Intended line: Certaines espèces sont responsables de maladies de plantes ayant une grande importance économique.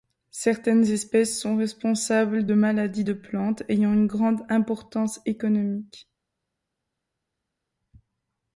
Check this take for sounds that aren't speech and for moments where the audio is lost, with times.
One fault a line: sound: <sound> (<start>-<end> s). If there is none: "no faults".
no faults